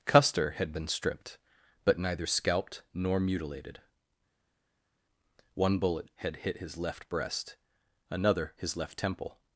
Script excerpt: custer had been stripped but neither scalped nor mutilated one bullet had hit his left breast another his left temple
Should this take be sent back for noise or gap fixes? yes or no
no